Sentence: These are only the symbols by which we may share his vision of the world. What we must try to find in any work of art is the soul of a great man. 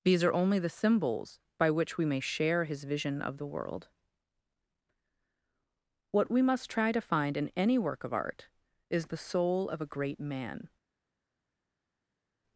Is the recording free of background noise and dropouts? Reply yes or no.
yes